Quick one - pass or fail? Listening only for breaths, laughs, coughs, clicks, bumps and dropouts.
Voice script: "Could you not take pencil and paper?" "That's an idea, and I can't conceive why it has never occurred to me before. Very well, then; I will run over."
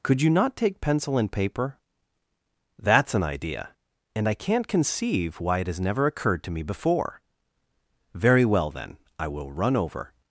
pass